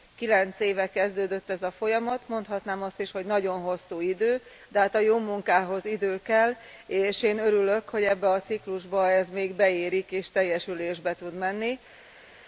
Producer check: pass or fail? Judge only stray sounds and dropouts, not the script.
pass